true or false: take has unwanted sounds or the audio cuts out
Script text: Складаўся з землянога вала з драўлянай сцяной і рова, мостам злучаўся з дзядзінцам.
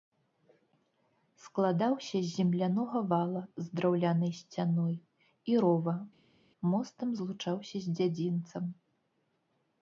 false